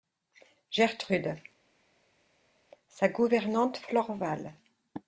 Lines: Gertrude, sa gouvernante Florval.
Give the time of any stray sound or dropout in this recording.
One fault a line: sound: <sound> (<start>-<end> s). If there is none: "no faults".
no faults